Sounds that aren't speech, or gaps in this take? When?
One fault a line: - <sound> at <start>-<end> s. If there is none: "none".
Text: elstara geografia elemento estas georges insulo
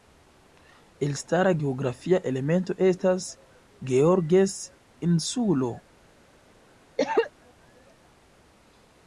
- cough at 7.0-7.3 s